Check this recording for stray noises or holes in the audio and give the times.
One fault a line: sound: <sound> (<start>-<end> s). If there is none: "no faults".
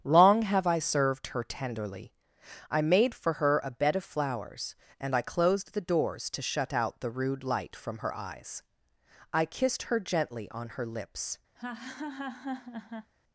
sound: laugh (11.5-13.1 s)